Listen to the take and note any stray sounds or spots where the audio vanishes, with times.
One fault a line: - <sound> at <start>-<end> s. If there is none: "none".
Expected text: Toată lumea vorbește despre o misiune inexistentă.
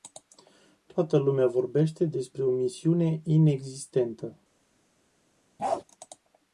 - bark at 5.6-5.8 s